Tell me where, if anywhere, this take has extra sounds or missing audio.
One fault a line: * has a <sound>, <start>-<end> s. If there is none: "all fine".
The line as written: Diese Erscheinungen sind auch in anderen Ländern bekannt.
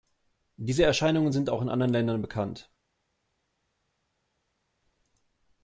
all fine